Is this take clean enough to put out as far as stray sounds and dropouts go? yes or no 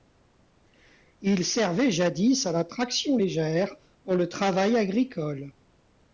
yes